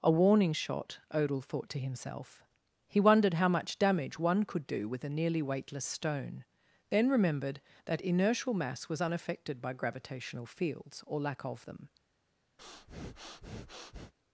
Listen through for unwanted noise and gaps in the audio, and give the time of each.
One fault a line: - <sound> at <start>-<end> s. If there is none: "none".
- breath at 12.6-14.1 s